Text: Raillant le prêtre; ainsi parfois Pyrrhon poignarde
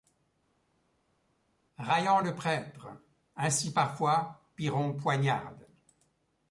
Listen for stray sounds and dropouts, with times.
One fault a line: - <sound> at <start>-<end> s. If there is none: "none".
none